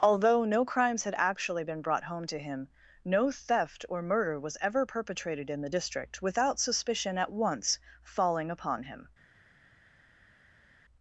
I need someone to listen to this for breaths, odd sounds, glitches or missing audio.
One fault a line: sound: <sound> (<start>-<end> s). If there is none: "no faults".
no faults